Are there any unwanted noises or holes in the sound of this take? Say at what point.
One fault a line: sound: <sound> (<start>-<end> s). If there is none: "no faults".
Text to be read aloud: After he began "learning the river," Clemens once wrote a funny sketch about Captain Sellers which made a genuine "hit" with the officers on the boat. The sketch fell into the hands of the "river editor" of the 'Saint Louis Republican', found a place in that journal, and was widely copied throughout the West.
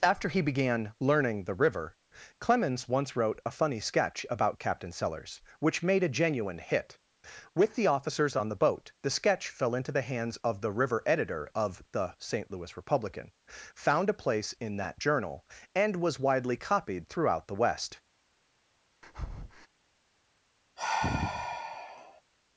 sound: breath (19.0-19.7 s)
sound: sigh (20.8-22.2 s)